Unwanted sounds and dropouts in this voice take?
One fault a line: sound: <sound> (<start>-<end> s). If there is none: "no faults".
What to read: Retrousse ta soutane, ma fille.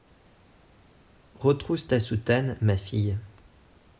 no faults